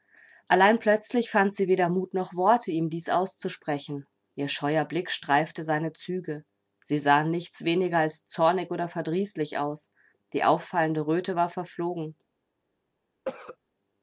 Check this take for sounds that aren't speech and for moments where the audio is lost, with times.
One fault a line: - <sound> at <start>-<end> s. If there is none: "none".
- cough at 13.3-13.6 s